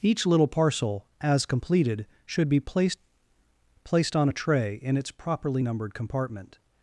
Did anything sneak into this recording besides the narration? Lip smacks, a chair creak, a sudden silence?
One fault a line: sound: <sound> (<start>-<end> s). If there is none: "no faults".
no faults